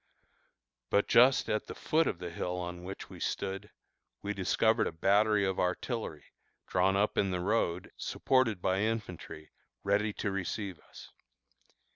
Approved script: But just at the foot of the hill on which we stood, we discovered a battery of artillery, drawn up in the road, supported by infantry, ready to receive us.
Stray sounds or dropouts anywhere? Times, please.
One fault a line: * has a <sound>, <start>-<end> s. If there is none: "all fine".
all fine